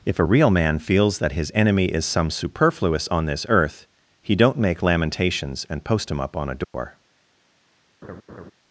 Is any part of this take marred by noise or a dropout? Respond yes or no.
yes